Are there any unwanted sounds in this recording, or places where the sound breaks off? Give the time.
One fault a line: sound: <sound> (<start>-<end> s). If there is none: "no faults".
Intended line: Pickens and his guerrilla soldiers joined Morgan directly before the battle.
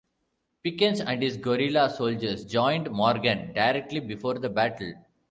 no faults